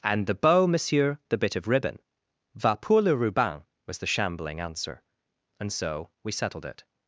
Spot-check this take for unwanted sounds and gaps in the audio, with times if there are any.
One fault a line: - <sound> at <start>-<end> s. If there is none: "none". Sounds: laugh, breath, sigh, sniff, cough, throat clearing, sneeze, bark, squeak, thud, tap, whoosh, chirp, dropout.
none